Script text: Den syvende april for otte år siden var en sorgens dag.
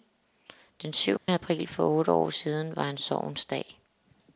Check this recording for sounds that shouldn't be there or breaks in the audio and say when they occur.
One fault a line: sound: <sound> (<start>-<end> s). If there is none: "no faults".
sound: dropout (1.2-1.3 s)